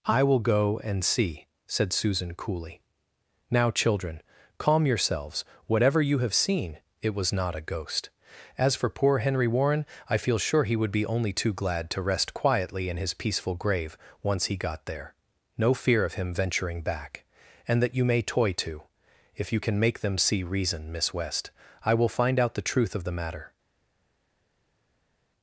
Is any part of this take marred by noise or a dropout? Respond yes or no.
no